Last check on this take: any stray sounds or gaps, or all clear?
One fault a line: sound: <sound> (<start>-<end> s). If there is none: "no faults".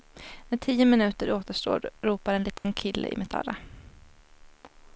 sound: dropout (2.6-2.6 s)